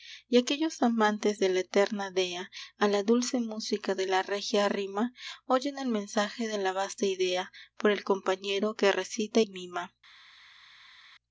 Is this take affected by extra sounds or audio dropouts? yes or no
no